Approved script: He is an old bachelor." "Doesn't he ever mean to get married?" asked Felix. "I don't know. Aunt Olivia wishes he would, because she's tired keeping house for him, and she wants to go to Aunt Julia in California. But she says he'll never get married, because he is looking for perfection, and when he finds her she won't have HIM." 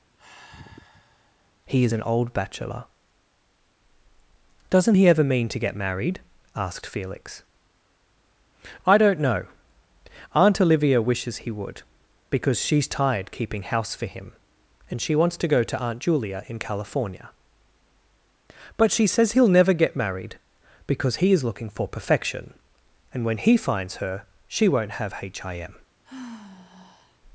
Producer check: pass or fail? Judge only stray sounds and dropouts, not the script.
fail